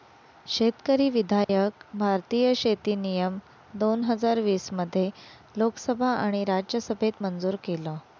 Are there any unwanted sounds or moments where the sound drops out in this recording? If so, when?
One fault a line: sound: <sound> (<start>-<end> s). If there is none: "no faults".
sound: dropout (1.4-1.5 s)